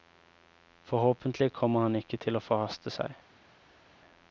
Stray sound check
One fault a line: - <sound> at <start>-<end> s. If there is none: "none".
none